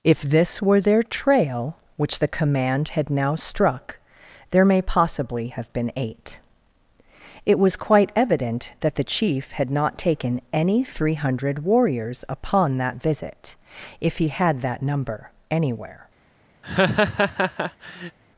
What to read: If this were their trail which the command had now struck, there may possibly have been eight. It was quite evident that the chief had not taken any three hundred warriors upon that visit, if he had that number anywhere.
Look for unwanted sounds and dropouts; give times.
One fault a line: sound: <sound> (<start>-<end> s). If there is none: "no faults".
sound: laugh (16.6-18.2 s)